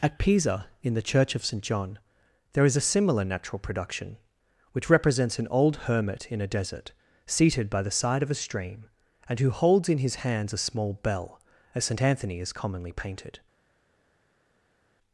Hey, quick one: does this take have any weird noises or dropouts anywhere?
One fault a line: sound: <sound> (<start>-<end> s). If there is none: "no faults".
no faults